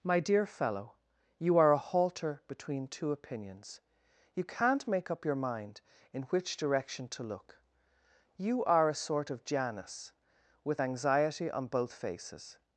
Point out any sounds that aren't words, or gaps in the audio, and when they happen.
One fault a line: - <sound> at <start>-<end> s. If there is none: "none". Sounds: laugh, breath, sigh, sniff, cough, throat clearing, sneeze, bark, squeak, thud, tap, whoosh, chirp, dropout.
none